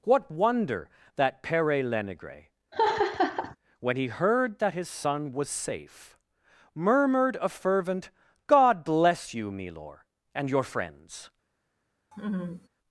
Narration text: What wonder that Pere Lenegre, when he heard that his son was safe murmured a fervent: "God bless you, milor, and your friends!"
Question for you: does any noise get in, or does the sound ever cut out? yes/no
yes